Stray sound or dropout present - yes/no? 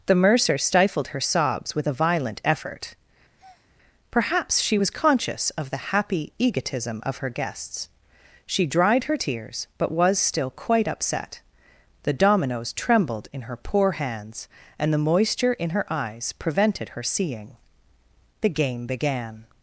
yes